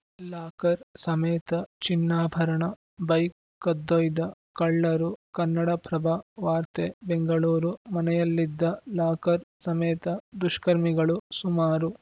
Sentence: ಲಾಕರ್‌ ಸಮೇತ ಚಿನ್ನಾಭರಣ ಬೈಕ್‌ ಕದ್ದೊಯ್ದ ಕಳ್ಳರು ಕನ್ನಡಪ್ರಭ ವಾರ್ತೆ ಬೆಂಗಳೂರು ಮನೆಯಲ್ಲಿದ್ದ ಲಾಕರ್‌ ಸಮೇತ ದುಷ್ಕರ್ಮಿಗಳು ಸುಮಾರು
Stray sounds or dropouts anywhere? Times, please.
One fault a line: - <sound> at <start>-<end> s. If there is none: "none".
none